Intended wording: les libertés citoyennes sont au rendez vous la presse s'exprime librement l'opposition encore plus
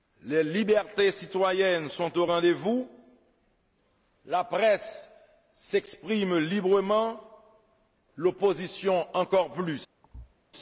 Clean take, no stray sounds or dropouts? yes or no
no